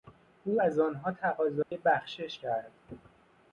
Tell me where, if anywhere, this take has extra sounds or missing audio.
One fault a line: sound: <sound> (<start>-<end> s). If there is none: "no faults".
sound: dropout (1.6-1.7 s)